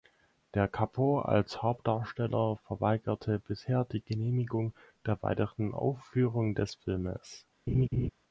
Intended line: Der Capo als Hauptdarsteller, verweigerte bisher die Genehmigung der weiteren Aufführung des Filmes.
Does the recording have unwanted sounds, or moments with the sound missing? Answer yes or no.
yes